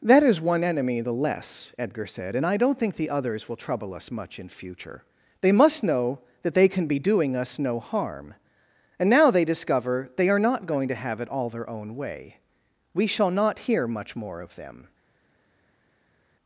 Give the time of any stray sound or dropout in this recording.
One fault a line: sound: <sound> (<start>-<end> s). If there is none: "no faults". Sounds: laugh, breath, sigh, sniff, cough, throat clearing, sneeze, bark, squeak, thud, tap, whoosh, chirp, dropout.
no faults